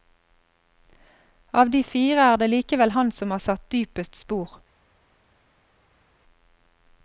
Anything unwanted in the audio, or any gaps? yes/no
no